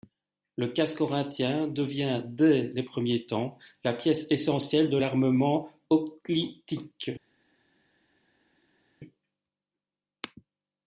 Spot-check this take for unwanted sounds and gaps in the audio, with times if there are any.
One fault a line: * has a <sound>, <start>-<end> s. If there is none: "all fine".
all fine